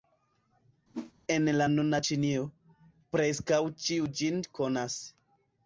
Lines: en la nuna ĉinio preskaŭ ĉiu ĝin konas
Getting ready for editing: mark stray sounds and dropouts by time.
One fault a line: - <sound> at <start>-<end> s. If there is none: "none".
- whoosh at 0.9-1.1 s